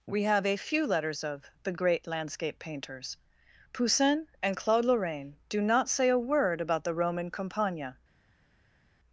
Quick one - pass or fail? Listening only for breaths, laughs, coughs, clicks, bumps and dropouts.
pass